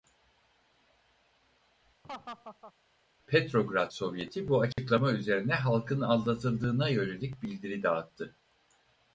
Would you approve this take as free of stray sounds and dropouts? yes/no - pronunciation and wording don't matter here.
no